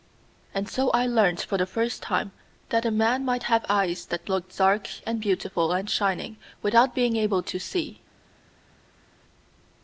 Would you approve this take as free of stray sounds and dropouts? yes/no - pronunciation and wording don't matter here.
yes